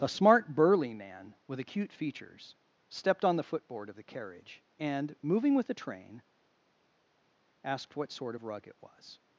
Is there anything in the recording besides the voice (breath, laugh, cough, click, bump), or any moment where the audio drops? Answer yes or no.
no